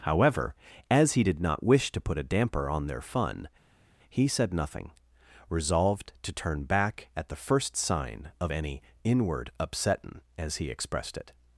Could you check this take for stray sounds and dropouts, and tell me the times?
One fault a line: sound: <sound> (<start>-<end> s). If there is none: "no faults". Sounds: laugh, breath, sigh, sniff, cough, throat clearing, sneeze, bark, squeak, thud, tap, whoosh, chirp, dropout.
no faults